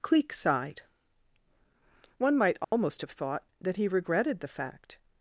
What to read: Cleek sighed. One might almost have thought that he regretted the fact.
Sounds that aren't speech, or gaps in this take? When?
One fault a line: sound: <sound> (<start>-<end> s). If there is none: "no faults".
sound: dropout (2.6-2.7 s)